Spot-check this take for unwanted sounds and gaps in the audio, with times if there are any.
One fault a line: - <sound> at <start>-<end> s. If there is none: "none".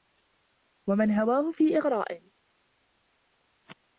none